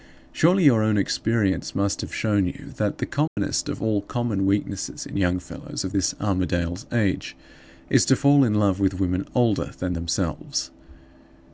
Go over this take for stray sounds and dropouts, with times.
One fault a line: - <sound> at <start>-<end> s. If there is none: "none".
- dropout at 3.3-3.4 s